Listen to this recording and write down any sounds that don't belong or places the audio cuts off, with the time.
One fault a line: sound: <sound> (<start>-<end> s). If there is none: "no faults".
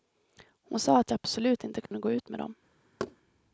sound: dropout (1.9-1.9 s)
sound: thud (3.0-3.2 s)